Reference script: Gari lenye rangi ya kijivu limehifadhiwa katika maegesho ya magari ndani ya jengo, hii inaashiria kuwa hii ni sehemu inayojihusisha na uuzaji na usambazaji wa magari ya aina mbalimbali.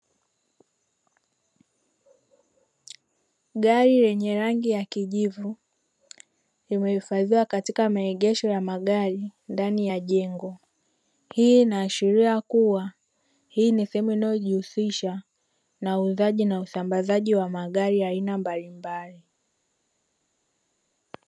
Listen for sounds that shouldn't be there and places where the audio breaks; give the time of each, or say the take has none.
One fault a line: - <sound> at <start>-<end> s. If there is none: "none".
none